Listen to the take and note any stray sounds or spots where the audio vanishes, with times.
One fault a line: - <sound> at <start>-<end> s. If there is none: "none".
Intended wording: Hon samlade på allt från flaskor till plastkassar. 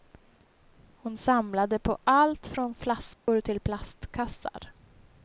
- dropout at 3.1-3.3 s